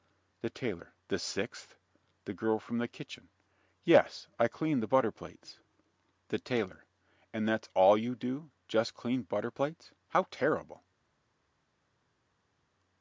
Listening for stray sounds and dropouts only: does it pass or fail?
pass